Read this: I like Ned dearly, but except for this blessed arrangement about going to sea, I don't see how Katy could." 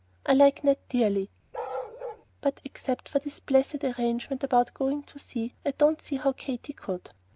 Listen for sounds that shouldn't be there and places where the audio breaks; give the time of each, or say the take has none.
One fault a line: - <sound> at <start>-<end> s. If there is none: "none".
- bark at 1.5-2.3 s